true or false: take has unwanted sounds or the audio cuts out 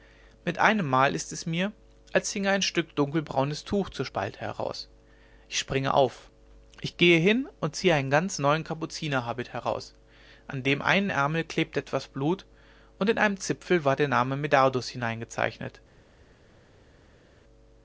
false